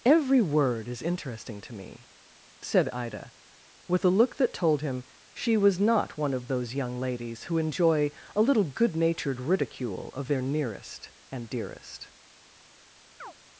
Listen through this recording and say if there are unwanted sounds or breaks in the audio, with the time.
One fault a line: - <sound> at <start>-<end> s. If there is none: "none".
- chirp at 13.2-13.3 s